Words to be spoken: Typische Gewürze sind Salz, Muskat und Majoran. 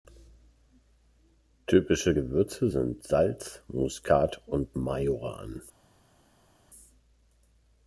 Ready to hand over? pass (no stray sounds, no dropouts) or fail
pass